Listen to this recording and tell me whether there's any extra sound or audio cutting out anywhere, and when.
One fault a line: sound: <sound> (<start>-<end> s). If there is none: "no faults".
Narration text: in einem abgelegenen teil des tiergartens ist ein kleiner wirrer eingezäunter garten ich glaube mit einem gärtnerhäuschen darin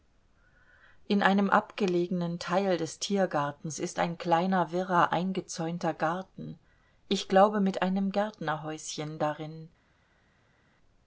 no faults